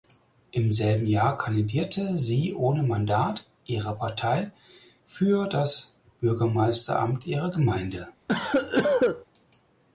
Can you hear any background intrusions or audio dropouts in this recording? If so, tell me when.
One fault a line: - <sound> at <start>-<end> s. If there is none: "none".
- cough at 8.3-9.3 s